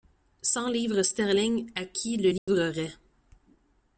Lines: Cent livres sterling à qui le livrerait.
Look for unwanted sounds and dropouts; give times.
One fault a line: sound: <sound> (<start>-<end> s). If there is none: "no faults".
sound: dropout (2.4-2.5 s)